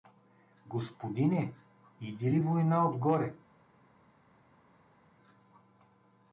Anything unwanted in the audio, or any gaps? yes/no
no